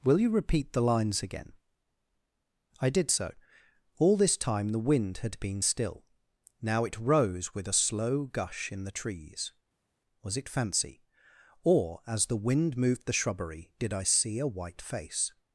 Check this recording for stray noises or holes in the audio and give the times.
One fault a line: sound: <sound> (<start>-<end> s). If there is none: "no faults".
no faults